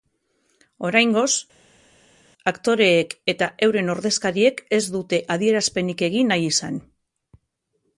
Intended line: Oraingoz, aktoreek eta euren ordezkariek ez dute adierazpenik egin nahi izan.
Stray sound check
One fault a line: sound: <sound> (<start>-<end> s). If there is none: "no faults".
no faults